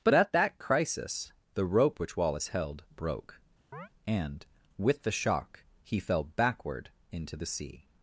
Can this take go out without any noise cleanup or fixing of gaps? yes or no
no